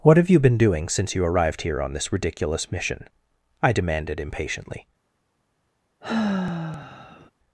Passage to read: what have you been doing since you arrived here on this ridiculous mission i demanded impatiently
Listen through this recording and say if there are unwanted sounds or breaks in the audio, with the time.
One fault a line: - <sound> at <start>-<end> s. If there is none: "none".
- sigh at 6.0-7.3 s